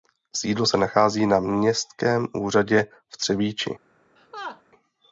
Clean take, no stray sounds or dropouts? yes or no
no